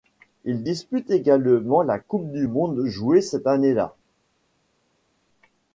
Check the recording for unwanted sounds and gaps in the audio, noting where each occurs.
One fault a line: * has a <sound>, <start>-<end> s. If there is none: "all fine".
all fine